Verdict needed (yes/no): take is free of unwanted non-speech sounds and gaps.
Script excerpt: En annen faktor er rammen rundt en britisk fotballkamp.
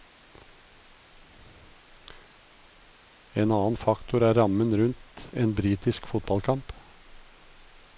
yes